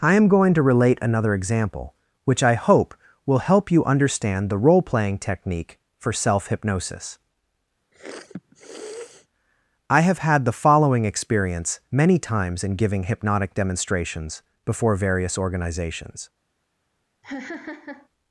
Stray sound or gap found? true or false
true